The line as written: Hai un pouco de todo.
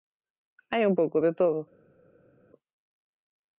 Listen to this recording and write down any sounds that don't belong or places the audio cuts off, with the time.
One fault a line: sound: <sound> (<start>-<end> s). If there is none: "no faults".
no faults